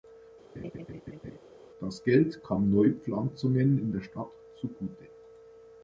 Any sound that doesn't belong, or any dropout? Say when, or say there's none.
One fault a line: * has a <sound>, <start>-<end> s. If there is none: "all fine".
* has a laugh, 0.6-1.4 s